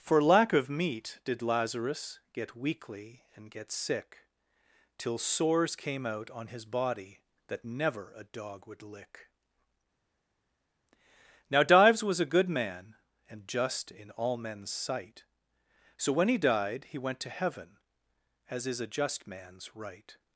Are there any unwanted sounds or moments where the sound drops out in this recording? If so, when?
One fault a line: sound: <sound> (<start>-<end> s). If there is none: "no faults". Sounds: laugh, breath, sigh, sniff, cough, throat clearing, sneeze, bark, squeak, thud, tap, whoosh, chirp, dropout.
no faults